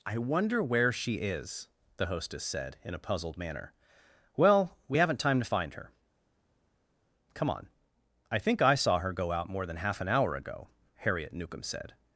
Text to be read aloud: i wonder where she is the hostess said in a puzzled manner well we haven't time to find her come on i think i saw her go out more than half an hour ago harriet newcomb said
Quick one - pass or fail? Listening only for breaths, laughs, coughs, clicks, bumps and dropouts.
pass